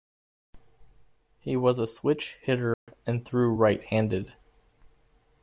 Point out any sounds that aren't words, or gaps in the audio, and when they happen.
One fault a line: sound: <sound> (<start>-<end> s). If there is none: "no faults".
sound: dropout (2.7-2.9 s)